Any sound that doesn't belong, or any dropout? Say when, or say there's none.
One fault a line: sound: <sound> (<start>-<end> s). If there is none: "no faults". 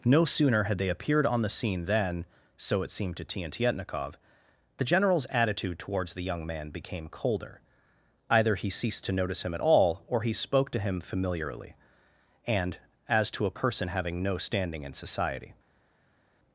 no faults